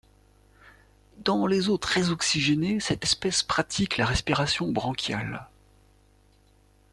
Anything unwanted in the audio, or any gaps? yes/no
no